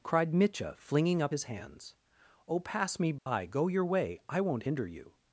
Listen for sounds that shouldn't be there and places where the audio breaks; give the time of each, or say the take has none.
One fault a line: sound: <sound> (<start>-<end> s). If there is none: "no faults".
sound: dropout (3.2-3.3 s)